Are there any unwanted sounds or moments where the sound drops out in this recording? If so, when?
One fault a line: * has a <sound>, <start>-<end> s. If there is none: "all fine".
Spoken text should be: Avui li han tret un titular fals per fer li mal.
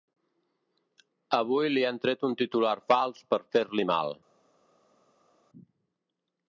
all fine